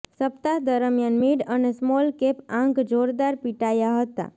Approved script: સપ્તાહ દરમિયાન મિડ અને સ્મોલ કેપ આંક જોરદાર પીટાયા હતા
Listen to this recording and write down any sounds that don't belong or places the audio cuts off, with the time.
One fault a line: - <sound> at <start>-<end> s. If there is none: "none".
none